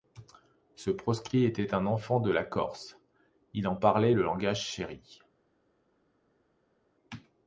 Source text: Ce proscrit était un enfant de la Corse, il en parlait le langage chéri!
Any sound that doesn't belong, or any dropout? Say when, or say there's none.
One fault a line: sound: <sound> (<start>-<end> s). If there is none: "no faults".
no faults